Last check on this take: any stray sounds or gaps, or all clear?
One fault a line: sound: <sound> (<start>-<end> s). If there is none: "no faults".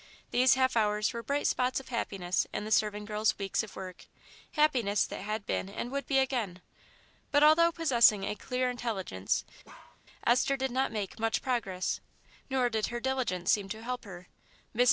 sound: bark (9.6-10.0 s)